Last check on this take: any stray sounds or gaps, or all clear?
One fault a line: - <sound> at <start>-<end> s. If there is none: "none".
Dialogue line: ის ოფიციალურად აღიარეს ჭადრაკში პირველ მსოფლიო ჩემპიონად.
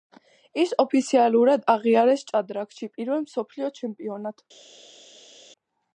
none